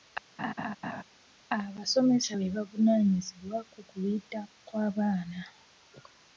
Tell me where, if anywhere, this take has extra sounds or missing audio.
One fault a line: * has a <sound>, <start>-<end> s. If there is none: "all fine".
* has a laugh, 0.4-1.0 s